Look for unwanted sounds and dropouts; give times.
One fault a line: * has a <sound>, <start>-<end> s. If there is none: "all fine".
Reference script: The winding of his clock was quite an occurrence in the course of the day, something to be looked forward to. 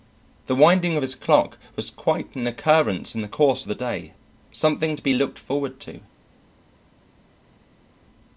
all fine